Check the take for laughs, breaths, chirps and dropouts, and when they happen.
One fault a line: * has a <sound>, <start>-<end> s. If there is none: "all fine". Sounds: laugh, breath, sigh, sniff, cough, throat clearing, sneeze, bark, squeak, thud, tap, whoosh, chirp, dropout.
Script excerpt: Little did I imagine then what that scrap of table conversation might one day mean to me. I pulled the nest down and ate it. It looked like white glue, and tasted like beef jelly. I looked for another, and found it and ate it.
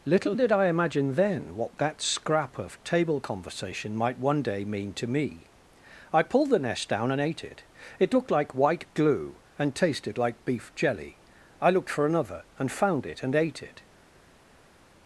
all fine